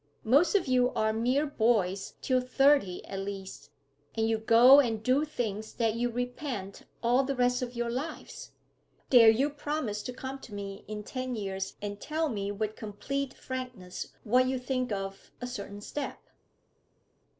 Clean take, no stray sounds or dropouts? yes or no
yes